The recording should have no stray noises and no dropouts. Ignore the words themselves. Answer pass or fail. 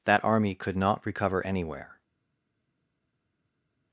pass